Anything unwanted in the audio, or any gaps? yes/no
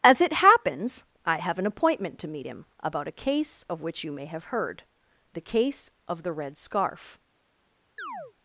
yes